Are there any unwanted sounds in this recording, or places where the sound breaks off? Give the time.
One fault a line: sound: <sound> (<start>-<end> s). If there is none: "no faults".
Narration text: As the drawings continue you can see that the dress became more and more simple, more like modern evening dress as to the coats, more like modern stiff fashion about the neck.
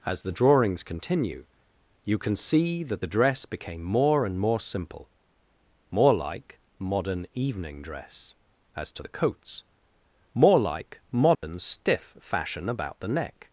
sound: dropout (11.4-11.4 s)